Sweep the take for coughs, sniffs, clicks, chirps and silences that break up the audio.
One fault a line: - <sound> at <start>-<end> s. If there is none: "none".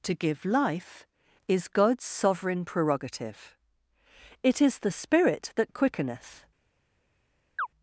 - chirp at 7.6-7.7 s